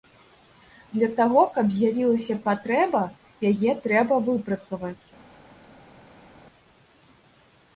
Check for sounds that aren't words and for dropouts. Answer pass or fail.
pass